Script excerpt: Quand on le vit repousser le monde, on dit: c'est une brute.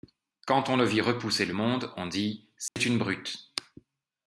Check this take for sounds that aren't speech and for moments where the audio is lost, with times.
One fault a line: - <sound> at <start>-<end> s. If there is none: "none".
- dropout at 2.7-2.8 s